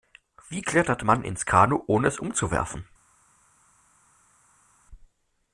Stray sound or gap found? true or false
false